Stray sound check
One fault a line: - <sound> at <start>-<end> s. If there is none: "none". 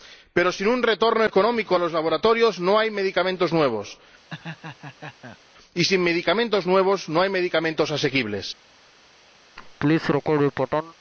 - laugh at 4.3-5.4 s
- laugh at 9.6-10.9 s